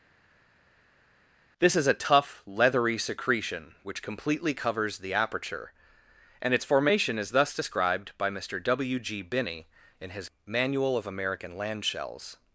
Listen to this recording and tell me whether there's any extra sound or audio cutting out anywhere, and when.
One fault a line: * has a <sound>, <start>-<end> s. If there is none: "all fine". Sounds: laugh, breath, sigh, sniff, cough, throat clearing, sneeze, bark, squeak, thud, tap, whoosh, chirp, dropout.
all fine